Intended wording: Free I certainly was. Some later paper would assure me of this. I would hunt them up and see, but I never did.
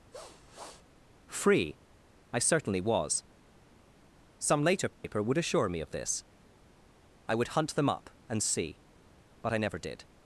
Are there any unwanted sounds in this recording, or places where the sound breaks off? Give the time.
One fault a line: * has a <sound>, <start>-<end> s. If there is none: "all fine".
* has a sniff, 0.1-0.9 s
* has a dropout, 4.9-5.0 s